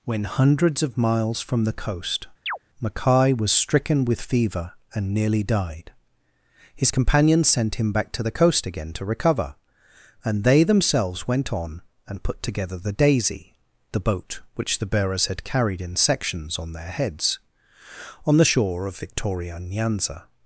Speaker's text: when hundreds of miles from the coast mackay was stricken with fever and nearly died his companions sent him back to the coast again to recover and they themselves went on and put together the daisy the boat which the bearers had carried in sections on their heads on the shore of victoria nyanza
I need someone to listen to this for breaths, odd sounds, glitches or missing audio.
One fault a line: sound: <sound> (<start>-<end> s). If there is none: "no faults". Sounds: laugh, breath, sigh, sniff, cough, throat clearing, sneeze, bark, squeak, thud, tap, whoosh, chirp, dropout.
sound: chirp (2.5-2.6 s)